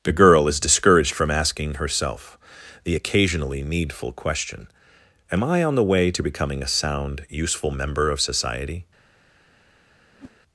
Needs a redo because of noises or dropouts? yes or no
yes